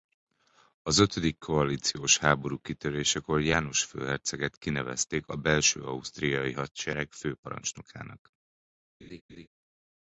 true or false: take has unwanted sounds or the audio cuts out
true